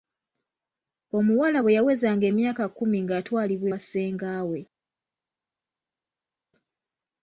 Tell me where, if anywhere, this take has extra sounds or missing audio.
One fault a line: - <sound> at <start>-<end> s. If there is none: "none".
none